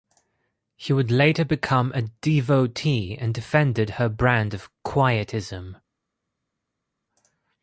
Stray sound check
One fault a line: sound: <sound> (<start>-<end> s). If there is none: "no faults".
no faults